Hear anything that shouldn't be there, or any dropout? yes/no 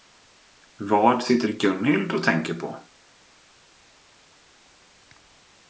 no